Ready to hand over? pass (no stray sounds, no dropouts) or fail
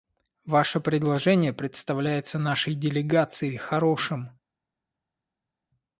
pass